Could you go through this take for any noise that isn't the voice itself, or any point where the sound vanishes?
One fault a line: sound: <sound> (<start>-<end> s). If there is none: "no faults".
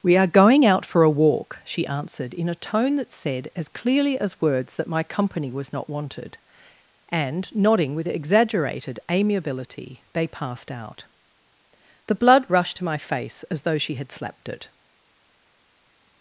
no faults